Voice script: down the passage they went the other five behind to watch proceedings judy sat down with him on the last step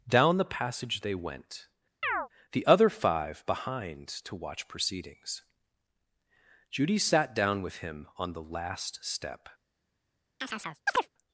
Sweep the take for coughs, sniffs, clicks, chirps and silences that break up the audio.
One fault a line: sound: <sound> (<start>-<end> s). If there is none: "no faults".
sound: chirp (2.0-2.3 s)
sound: chirp (10.4-11.1 s)